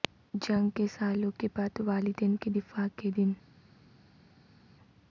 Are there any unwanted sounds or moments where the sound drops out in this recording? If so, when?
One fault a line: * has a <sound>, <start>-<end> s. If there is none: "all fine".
all fine